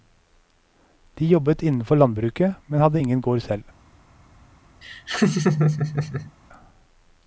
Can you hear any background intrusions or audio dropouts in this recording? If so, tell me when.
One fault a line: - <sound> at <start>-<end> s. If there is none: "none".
- laugh at 4.8-6.3 s